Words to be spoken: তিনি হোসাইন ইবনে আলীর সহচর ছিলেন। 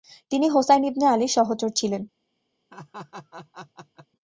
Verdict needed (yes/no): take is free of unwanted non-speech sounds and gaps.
no